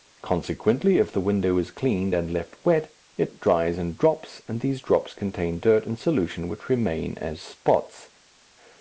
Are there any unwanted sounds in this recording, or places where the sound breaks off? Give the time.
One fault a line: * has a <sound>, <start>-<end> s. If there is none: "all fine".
all fine